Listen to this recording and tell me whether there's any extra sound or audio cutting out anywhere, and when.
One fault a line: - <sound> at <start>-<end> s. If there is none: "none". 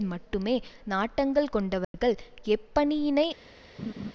- dropout at 1.8-1.9 s
- laugh at 3.8-4.1 s